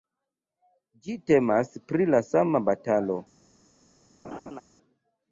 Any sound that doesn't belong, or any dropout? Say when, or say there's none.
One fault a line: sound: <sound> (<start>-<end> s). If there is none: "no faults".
sound: laugh (4.2-4.6 s)